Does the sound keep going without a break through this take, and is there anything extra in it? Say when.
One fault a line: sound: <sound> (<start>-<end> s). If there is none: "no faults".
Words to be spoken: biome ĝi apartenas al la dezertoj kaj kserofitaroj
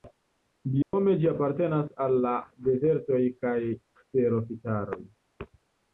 sound: dropout (0.8-0.9 s)